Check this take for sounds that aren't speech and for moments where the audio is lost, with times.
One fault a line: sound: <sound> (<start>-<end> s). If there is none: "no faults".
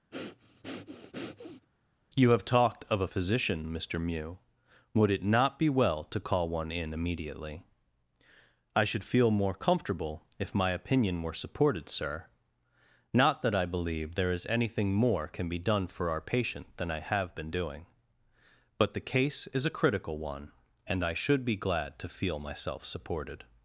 sound: breath (0.1-1.7 s)